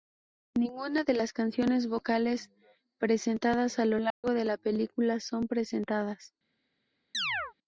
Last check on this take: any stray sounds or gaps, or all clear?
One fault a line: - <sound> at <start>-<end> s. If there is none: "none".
- dropout at 4.1-4.2 s
- chirp at 7.1-7.5 s